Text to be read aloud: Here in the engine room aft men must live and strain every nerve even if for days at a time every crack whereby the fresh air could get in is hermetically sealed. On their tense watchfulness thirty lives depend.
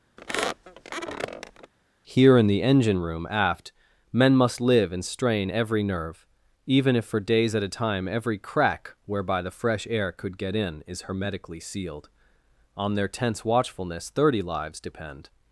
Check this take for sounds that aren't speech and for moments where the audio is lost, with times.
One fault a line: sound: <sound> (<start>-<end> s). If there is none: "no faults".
sound: squeak (0.2-1.7 s)